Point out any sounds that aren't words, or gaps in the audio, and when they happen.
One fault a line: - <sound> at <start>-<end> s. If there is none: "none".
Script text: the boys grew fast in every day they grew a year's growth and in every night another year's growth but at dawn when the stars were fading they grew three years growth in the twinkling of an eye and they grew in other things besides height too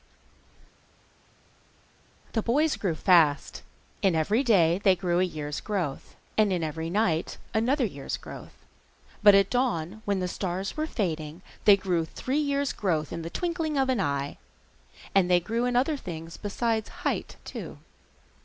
none